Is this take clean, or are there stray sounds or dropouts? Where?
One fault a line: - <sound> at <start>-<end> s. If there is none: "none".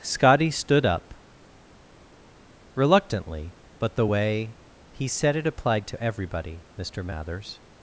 none